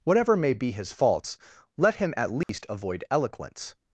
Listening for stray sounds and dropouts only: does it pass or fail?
fail